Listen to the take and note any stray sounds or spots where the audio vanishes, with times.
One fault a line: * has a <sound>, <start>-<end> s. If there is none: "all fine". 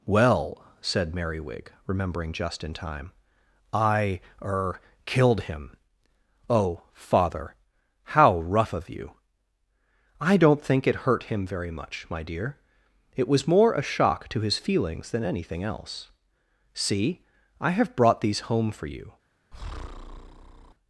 * has a breath, 19.5-20.7 s